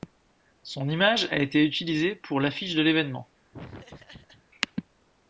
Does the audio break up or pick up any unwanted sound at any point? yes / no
yes